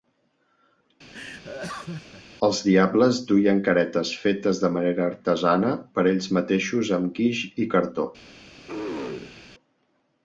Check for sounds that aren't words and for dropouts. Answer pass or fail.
fail